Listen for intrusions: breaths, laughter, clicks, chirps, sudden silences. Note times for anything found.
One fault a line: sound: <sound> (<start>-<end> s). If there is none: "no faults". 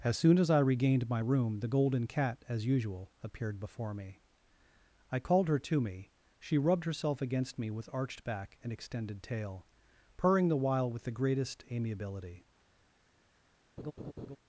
sound: laugh (13.8-14.4 s)